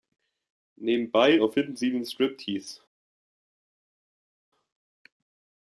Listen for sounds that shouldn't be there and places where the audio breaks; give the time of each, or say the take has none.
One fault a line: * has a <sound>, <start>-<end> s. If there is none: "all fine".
all fine